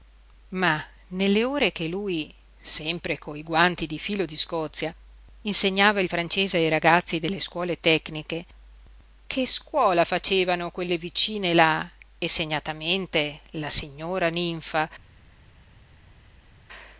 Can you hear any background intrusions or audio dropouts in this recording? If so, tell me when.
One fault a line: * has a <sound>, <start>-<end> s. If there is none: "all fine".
all fine